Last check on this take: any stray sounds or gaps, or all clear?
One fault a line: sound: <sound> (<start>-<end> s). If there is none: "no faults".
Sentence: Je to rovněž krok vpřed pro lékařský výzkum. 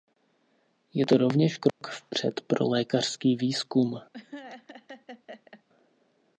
sound: dropout (1.7-1.8 s)
sound: laugh (4.1-5.6 s)